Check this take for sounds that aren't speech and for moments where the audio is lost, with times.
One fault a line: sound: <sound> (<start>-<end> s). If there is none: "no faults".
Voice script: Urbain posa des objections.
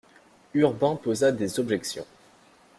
no faults